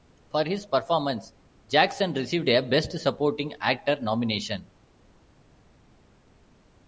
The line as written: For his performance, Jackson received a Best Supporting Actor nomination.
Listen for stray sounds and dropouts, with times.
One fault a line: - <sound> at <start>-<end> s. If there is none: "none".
none